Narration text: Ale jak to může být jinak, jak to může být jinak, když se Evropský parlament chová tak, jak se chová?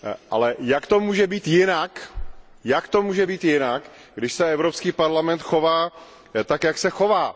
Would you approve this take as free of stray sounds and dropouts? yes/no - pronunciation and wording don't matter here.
yes